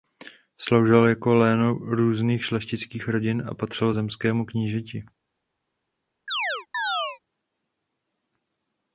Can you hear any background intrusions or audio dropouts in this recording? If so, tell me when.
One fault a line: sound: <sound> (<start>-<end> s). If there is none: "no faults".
sound: chirp (6.3-7.2 s)